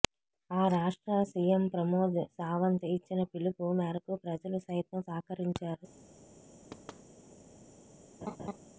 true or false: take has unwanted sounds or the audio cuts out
true